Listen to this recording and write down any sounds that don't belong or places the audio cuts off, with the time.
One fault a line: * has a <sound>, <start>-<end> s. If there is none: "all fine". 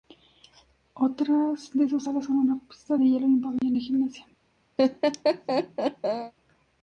* has a dropout, 3.6-3.6 s
* has a laugh, 4.8-6.3 s